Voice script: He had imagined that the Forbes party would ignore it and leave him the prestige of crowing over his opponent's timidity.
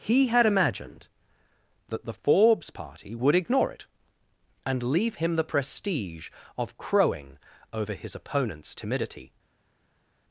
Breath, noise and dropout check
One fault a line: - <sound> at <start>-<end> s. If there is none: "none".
none